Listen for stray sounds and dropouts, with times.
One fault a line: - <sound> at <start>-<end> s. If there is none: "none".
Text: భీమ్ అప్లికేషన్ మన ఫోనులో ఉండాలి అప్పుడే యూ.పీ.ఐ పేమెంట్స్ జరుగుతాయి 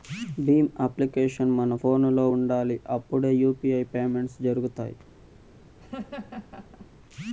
- laugh at 5.8-6.9 s